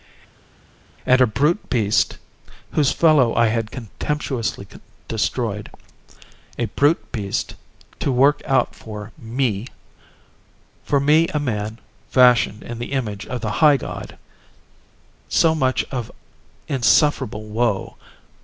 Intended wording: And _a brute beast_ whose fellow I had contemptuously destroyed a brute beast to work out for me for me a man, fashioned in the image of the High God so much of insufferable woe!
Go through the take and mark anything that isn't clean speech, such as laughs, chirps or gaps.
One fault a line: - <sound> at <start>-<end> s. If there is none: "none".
none